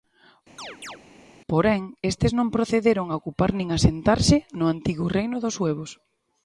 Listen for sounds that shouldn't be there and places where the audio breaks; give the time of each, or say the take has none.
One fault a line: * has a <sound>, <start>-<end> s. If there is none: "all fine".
* has a chirp, 0.6-1.0 s